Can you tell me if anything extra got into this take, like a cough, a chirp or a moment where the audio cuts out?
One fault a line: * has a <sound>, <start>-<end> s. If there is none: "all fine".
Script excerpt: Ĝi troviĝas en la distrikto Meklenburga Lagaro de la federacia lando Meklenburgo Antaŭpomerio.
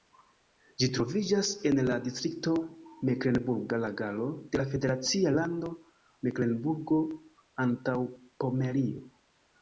all fine